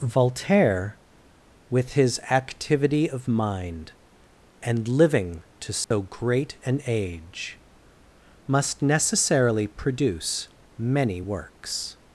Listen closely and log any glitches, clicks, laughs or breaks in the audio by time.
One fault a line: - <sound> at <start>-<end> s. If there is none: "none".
- dropout at 5.8-5.9 s